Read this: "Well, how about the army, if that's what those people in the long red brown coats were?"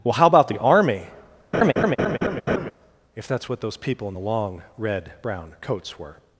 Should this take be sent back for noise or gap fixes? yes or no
yes